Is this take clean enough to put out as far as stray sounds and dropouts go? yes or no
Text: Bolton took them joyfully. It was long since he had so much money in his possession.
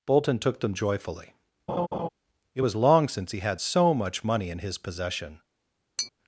no